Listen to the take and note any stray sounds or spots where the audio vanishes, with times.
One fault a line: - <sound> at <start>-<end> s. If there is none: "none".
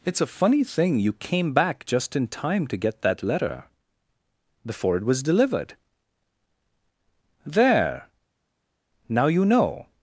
none